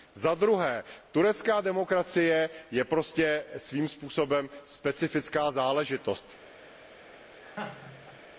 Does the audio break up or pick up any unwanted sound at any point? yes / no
yes